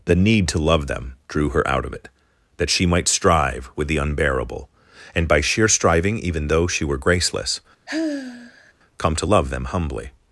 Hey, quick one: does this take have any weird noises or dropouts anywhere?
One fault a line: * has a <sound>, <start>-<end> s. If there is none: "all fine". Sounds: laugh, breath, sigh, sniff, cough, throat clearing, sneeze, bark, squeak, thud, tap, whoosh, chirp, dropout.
* has a sigh, 7.9-8.7 s